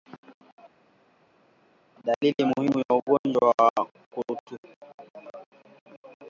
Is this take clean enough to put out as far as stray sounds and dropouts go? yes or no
yes